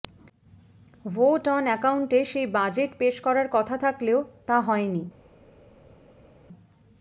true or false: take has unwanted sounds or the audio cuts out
false